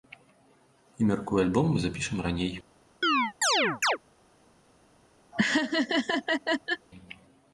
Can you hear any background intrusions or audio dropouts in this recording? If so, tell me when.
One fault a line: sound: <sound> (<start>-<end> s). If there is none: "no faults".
sound: chirp (3.0-4.0 s)
sound: laugh (5.3-6.9 s)